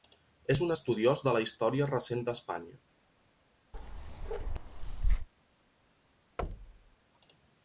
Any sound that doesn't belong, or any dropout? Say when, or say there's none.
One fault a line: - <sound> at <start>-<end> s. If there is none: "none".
- bark at 3.7-5.3 s
- thud at 6.4-7.0 s